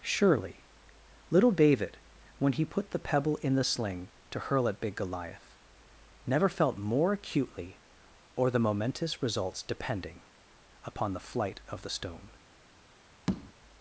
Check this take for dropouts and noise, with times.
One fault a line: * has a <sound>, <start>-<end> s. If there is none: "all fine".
* has a tap, 13.3-13.5 s